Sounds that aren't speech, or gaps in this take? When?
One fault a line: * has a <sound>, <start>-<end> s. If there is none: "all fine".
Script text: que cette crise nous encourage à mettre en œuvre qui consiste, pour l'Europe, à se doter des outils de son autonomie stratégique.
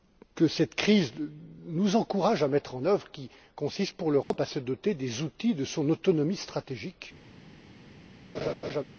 * has a dropout, 4.2-4.3 s
* has a laugh, 8.3-8.8 s